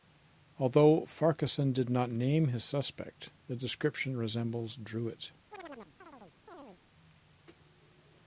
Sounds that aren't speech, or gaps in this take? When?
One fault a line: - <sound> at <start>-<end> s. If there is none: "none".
- chirp at 5.5-6.8 s